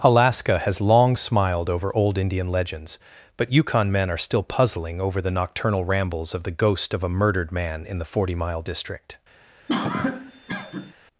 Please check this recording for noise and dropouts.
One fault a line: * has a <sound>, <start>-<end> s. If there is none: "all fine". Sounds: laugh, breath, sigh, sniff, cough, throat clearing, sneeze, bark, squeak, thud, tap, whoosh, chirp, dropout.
* has a cough, 9.7-10.9 s